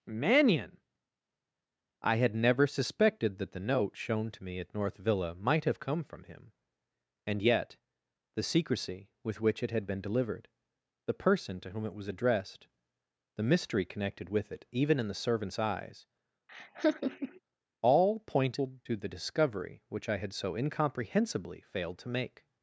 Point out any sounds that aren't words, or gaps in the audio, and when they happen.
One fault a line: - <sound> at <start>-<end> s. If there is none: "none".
- laugh at 16.5-17.4 s